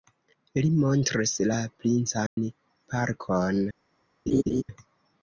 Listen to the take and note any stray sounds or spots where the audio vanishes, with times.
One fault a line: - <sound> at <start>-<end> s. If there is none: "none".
- dropout at 2.3-2.4 s
- laugh at 4.3-4.6 s